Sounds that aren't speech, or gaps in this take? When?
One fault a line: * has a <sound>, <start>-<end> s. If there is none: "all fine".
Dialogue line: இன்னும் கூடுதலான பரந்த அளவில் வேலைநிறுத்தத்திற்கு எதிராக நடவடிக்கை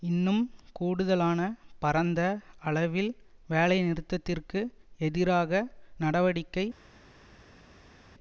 all fine